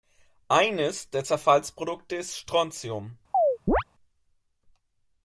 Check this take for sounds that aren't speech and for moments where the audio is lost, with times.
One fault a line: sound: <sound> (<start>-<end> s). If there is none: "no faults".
sound: chirp (3.3-3.8 s)